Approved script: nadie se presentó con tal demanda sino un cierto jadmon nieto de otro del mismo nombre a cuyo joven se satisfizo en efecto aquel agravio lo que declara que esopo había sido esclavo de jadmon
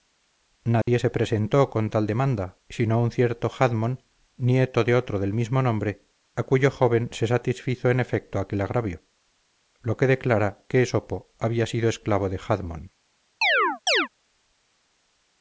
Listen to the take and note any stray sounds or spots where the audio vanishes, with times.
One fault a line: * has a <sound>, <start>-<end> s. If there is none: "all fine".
* has a dropout, 0.8-0.9 s
* has a chirp, 13.4-14.1 s